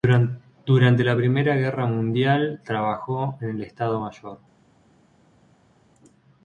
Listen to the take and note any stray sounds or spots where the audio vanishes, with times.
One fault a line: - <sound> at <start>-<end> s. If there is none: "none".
none